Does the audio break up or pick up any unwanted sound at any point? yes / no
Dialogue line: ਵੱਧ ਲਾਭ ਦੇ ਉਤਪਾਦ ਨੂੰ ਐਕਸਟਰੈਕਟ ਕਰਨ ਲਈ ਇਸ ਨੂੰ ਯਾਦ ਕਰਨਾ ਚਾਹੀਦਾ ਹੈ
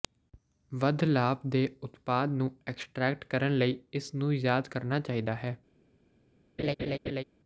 yes